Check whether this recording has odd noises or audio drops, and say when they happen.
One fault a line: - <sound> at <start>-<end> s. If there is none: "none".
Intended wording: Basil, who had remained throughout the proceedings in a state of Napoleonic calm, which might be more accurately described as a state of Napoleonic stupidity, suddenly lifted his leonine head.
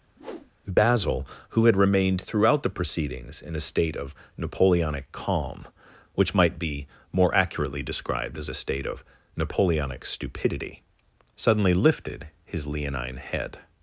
- whoosh at 0.2-0.5 s